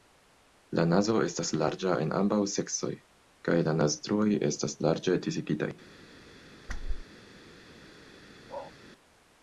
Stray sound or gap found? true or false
true